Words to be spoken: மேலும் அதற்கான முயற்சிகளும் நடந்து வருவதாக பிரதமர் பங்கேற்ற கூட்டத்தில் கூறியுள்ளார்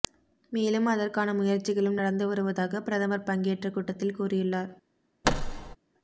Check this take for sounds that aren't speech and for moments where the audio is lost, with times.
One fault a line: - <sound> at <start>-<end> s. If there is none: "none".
- thud at 5.2-5.8 s